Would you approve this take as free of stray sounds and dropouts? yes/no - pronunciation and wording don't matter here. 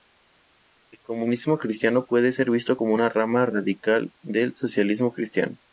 yes